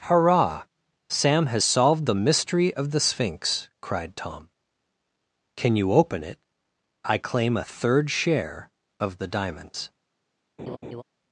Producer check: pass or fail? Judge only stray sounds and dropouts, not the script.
fail